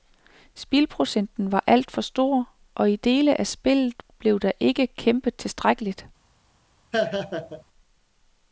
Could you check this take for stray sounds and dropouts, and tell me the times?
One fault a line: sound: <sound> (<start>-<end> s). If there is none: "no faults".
sound: laugh (6.9-7.6 s)